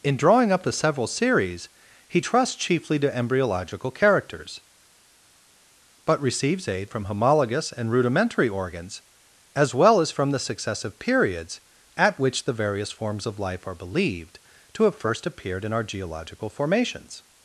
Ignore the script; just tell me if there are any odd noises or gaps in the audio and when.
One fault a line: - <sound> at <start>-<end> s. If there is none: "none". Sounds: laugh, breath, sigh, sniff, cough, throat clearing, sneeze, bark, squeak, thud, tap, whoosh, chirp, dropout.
none